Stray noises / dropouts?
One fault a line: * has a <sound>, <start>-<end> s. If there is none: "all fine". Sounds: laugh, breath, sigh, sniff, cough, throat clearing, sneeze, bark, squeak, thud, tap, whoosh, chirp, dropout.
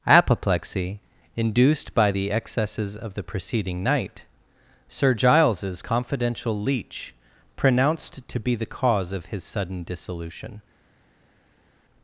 all fine